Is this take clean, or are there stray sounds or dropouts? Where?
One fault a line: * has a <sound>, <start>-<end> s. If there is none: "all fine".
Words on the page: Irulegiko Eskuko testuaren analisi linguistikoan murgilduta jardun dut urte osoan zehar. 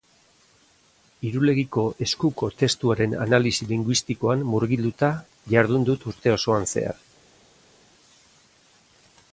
all fine